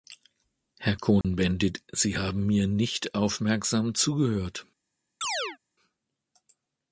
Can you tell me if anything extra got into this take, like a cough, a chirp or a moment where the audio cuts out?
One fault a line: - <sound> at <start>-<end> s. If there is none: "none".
- dropout at 1.2-1.2 s
- chirp at 5.2-5.6 s